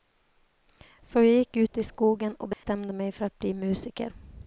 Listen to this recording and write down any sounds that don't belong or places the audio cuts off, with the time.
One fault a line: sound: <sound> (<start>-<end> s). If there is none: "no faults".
sound: dropout (2.5-2.6 s)